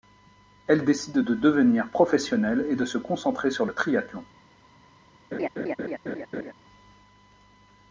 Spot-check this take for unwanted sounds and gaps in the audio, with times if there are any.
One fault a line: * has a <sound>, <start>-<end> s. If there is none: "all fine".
* has a laugh, 5.3-6.5 s